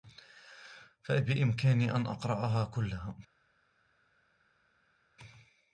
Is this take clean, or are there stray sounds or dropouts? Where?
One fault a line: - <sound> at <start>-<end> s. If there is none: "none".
none